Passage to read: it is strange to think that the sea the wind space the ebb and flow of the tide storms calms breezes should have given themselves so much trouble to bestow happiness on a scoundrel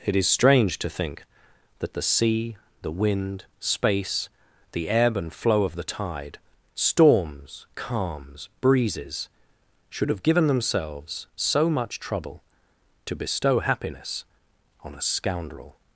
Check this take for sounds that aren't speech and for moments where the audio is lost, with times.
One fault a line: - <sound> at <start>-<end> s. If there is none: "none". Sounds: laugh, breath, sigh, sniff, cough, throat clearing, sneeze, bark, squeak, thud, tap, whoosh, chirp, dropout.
none